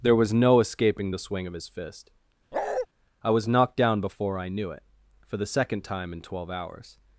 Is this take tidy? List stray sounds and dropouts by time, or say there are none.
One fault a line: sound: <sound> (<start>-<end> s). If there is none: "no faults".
sound: bark (2.5-2.9 s)